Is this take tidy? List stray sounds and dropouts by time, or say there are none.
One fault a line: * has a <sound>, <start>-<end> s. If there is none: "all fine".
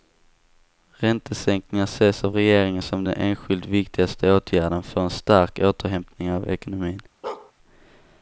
* has a bark, 7.2-7.5 s